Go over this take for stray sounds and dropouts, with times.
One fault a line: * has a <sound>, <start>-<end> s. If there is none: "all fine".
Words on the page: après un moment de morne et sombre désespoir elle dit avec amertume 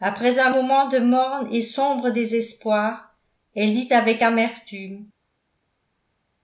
all fine